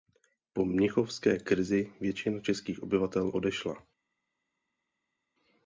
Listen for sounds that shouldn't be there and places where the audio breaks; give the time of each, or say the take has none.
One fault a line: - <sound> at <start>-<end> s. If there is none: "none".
none